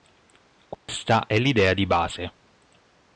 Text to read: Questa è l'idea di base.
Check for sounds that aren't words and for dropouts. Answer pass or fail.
fail